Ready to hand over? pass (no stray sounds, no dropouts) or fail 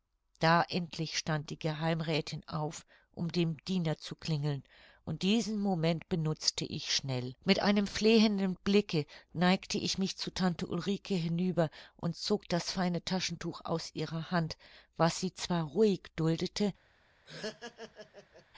fail